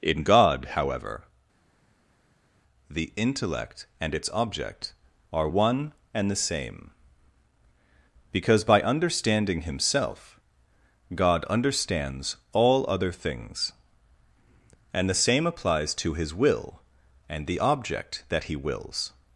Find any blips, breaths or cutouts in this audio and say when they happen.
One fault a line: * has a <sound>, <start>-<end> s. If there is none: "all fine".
all fine